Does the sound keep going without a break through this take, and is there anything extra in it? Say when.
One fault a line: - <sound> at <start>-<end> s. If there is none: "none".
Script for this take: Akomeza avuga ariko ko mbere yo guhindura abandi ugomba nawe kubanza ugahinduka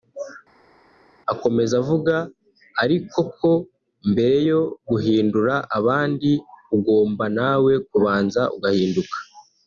none